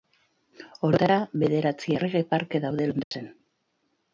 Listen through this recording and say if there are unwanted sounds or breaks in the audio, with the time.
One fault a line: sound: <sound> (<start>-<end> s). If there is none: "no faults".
sound: dropout (3.0-3.1 s)